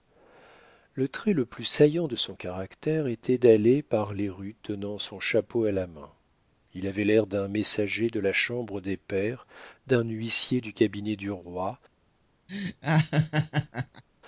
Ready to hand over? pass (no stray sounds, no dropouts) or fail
fail